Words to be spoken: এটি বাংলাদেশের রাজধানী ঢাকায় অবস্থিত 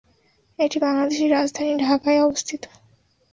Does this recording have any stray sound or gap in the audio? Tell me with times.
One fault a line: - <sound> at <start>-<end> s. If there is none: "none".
none